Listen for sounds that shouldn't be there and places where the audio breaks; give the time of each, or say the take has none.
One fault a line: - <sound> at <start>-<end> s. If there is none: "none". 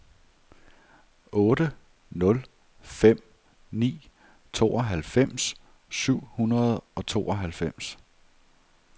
none